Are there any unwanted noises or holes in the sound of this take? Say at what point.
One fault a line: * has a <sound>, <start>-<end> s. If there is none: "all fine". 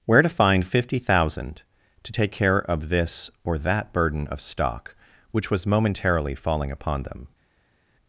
all fine